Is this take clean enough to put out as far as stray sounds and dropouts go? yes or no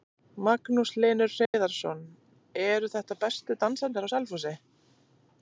no